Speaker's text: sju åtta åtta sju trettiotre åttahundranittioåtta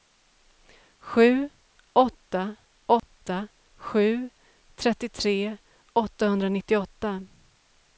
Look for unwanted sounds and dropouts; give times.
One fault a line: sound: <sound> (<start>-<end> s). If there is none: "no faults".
sound: dropout (3.0-3.0 s)